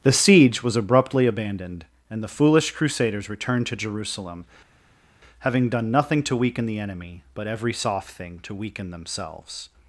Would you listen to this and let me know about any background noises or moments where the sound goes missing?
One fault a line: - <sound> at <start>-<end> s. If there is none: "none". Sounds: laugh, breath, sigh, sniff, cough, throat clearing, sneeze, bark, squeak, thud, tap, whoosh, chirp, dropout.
none